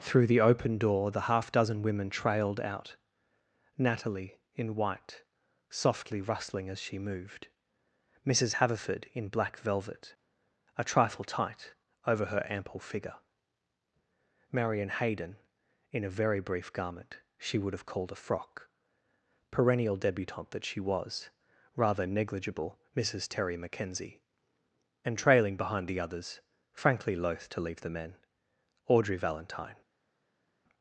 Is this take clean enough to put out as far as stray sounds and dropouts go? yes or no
yes